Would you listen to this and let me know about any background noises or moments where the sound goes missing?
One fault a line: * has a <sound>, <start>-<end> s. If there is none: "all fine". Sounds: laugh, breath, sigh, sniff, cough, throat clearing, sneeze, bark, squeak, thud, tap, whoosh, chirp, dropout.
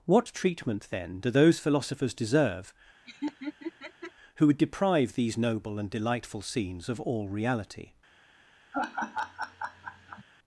* has a laugh, 3.1-4.1 s
* has a laugh, 8.7-10.2 s